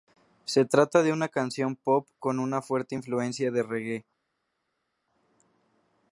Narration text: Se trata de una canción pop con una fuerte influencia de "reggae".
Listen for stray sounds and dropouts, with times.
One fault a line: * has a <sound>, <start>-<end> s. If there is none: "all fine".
all fine